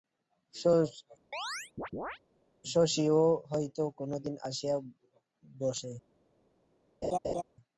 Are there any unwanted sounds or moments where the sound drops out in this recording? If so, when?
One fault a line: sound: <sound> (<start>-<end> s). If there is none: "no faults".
sound: chirp (1.3-2.2 s)
sound: laugh (7.0-7.4 s)